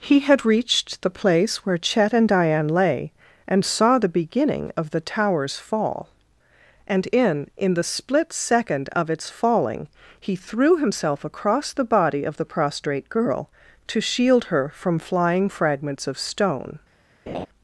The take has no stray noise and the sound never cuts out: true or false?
false